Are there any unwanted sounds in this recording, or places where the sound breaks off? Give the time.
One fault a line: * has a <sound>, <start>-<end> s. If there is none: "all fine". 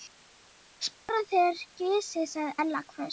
* has a dropout, 0.9-1.1 s